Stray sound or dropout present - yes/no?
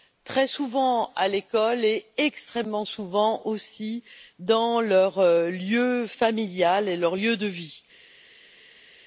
no